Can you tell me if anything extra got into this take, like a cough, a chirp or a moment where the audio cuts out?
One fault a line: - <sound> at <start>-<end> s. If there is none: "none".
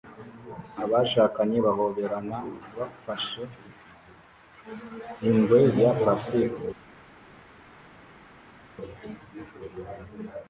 none